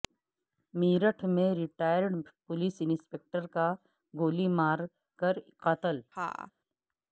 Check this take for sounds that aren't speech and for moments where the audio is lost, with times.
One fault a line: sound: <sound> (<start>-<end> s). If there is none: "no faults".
sound: laugh (6.1-6.5 s)